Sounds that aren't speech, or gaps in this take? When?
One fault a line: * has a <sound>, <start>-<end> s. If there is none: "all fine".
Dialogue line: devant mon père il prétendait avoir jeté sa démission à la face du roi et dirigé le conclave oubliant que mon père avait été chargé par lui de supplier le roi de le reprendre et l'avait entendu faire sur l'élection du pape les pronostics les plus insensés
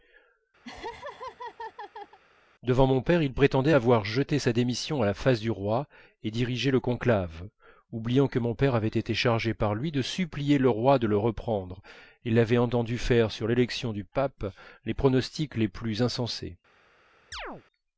* has a laugh, 0.6-2.2 s
* has a chirp, 17.3-17.6 s